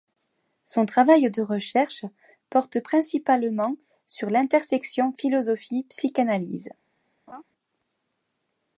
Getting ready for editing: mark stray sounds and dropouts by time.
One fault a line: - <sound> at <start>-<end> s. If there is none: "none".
- laugh at 7.3-7.4 s